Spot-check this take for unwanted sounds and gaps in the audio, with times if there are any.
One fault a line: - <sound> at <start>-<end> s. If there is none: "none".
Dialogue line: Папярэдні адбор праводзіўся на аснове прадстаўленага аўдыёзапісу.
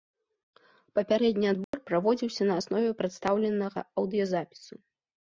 - dropout at 1.6-1.7 s